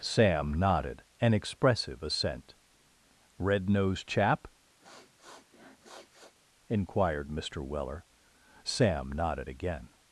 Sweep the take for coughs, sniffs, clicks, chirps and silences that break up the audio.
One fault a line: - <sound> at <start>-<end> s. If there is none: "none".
- sniff at 4.8-6.3 s